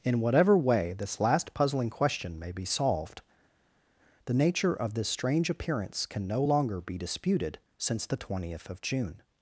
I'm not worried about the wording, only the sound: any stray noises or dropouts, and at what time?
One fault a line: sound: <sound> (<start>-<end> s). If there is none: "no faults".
no faults